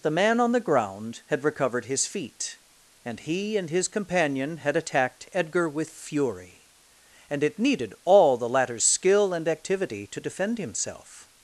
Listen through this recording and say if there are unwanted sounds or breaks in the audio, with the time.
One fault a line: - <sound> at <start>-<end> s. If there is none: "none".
none